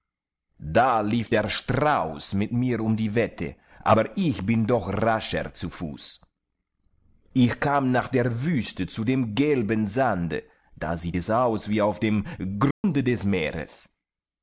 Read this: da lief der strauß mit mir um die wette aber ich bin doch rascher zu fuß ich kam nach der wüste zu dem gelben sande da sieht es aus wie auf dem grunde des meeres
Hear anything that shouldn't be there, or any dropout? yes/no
yes